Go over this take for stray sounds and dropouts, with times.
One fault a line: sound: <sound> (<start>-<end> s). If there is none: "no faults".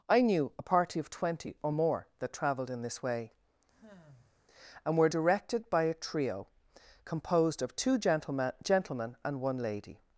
sound: sigh (3.7-4.3 s)